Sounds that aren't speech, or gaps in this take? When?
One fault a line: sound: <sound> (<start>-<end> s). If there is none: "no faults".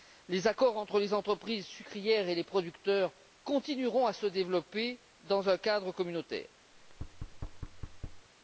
sound: thud (6.7-8.3 s)